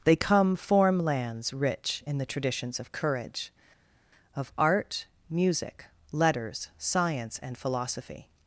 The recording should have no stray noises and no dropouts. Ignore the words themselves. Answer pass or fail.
pass